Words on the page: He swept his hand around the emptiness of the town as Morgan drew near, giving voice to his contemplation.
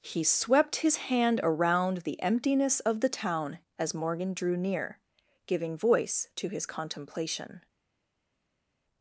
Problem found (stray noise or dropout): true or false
false